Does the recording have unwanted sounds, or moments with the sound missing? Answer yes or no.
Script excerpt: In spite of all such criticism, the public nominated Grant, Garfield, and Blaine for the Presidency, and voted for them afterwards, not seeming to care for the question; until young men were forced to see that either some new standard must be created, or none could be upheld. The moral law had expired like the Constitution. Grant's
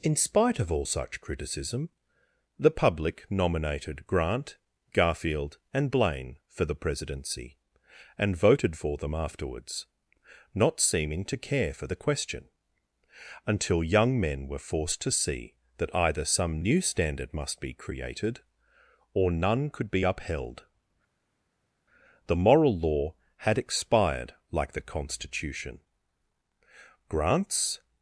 no